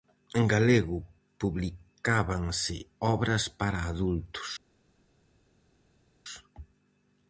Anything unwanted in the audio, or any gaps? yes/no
no